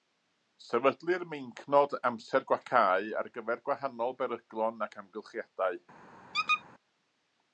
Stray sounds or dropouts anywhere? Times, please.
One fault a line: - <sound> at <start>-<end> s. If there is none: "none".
- squeak at 6.3-6.6 s